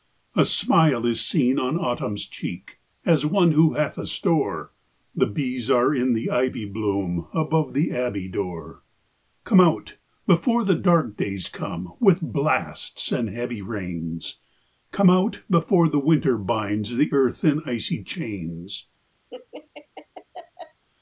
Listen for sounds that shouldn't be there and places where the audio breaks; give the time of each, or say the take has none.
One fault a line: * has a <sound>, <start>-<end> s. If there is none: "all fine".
* has a laugh, 19.3-20.8 s